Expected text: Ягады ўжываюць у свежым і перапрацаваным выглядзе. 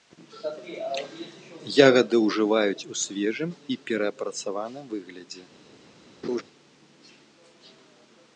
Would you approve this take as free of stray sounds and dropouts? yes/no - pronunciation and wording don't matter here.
no